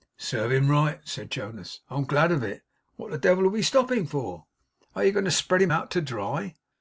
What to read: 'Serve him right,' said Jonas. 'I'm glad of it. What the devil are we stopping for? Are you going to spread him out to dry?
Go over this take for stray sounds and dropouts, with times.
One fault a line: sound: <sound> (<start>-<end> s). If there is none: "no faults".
no faults